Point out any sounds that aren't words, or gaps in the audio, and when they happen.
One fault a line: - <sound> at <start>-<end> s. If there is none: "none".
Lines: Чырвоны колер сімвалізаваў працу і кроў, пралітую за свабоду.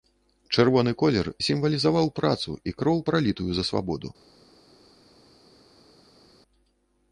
none